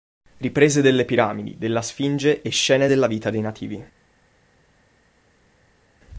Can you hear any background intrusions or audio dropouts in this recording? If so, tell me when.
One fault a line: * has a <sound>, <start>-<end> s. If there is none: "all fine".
all fine